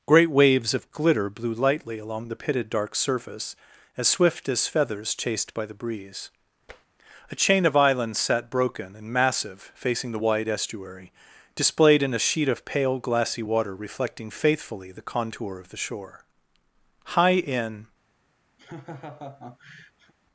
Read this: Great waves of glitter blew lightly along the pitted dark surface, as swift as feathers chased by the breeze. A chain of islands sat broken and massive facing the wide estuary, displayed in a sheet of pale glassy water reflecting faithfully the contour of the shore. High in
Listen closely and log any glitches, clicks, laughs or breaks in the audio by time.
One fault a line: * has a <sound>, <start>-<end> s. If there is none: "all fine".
* has a tap, 6.7-6.9 s
* has a laugh, 18.6-20.1 s